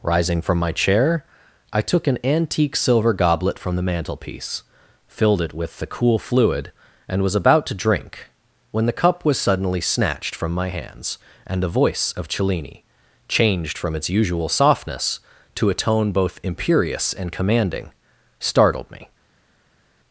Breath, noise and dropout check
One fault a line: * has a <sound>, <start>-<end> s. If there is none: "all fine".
all fine